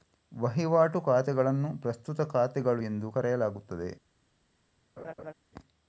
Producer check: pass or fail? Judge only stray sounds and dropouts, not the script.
fail